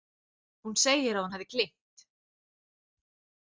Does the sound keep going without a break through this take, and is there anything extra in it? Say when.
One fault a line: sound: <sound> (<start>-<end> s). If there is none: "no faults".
no faults